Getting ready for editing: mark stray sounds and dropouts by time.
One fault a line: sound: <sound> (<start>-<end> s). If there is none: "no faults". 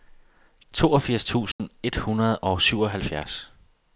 sound: dropout (1.5-1.6 s)